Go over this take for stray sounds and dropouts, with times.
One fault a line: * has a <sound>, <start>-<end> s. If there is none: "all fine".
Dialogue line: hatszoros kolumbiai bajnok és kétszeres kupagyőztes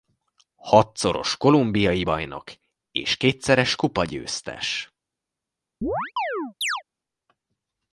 * has a chirp, 5.8-6.8 s